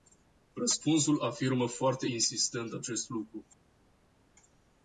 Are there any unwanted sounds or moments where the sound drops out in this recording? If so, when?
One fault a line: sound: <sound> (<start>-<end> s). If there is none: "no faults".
no faults